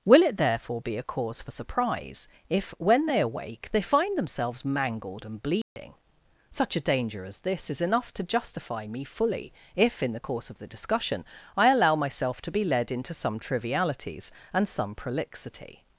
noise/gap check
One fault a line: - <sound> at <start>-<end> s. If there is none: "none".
- dropout at 5.6-5.8 s